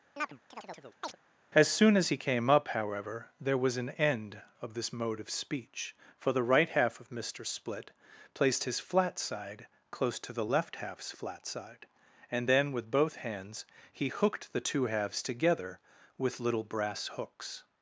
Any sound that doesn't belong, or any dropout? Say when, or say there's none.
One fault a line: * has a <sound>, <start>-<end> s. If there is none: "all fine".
* has a chirp, 0.2-1.2 s